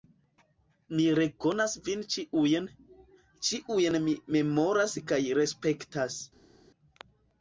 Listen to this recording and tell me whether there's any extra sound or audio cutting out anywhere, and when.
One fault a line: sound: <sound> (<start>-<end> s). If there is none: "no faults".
no faults